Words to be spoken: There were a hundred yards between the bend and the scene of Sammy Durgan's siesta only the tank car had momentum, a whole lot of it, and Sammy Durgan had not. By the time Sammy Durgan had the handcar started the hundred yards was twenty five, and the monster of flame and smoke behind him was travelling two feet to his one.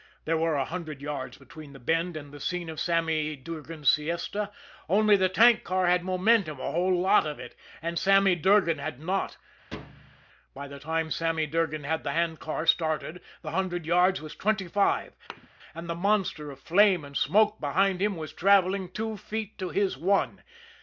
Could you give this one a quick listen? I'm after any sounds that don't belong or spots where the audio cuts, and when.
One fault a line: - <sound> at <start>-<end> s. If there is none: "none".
- thud at 9.7-10.3 s
- thud at 15.3-15.5 s